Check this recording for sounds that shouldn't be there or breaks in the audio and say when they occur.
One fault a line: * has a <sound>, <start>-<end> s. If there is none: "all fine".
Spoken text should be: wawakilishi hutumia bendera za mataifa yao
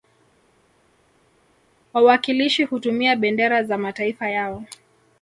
all fine